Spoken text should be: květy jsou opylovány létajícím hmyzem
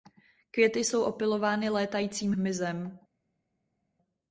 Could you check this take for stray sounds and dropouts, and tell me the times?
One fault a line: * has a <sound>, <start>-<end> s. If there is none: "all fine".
all fine